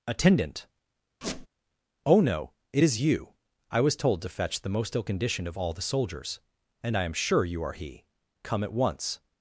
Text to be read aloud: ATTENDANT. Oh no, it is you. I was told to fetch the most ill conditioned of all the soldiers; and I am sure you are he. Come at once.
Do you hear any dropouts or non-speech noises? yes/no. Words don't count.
yes